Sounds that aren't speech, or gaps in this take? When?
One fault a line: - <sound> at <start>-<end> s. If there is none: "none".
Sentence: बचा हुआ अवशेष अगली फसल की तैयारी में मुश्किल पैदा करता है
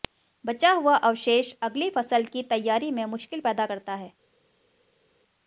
none